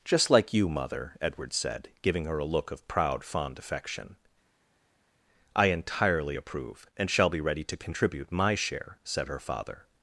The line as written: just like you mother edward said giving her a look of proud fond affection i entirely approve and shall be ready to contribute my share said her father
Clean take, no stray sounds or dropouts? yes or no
yes